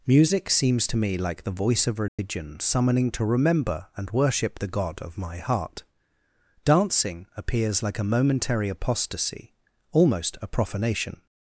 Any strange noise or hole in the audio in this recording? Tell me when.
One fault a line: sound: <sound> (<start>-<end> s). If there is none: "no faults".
sound: dropout (2.1-2.2 s)